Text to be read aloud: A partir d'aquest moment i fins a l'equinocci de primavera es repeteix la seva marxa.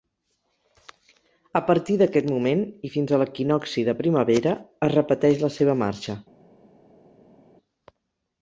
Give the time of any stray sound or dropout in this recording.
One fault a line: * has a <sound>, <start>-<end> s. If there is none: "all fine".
all fine